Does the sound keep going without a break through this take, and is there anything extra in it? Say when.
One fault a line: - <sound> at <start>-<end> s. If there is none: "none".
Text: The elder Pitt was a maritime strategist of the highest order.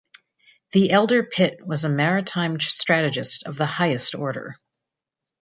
none